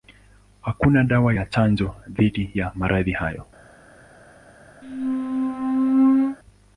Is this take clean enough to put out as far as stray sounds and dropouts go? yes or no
no